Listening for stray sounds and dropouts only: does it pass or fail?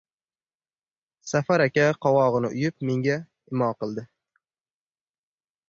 pass